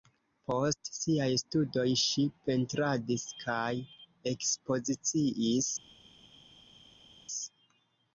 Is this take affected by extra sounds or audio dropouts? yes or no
no